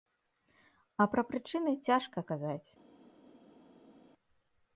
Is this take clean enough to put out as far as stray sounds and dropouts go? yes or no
yes